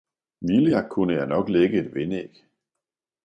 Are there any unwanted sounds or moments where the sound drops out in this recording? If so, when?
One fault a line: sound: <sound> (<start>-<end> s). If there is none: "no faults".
no faults